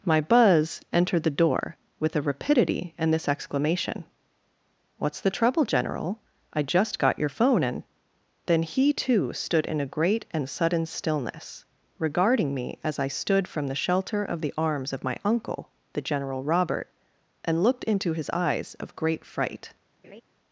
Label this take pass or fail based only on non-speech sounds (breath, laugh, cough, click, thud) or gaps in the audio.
fail